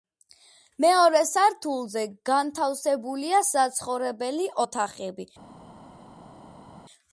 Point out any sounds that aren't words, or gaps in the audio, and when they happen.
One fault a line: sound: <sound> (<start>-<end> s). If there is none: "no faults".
no faults